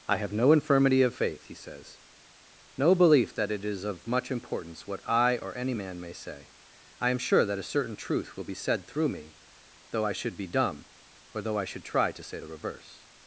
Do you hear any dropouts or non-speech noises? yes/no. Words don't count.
no